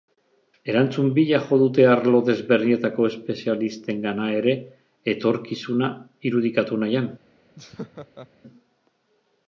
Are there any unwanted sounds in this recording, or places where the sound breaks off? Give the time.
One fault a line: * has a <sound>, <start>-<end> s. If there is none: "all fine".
* has a laugh, 7.6-8.3 s